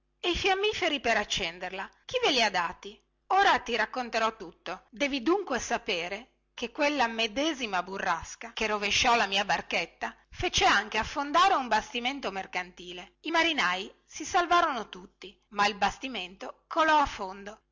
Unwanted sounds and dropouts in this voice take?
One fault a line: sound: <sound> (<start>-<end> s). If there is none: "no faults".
no faults